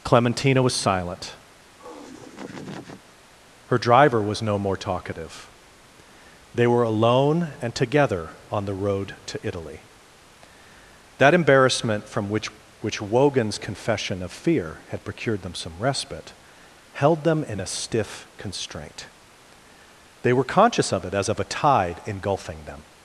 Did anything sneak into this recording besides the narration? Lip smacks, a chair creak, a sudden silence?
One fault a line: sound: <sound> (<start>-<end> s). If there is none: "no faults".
sound: laugh (1.8-3.2 s)